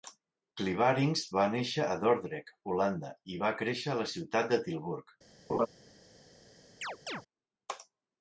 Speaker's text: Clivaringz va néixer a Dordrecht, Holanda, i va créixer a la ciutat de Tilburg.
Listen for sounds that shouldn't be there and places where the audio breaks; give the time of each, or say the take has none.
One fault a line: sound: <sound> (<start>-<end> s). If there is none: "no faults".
sound: laugh (5.5-5.7 s)
sound: chirp (6.8-7.2 s)